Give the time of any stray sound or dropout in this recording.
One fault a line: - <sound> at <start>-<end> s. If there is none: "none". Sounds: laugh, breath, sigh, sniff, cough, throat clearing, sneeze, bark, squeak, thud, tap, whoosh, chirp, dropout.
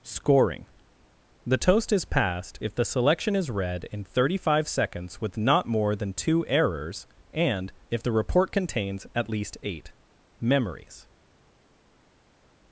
none